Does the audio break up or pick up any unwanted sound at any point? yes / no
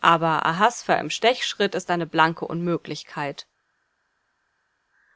no